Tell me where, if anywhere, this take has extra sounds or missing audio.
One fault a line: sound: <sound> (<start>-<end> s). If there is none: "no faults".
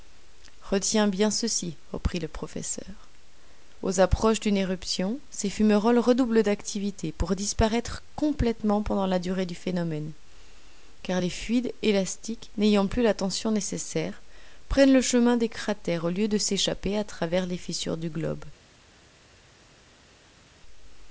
no faults